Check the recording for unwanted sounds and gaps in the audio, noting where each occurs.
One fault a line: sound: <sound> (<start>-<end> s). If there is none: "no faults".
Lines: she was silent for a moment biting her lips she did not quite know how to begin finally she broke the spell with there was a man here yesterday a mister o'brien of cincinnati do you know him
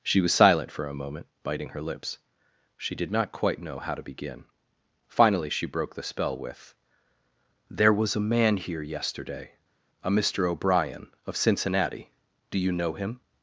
no faults